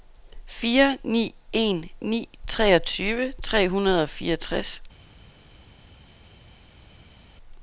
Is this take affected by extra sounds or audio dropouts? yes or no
no